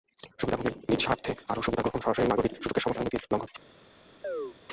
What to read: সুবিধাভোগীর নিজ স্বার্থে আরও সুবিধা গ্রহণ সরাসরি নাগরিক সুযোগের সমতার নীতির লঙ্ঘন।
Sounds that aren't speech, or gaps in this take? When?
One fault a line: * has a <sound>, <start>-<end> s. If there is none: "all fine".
* has a chirp, 4.2-4.6 s